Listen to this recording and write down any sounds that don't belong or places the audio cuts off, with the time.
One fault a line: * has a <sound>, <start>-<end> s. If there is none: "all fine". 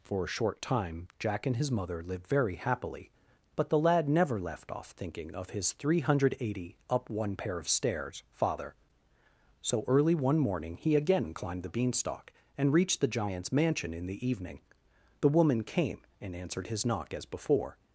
all fine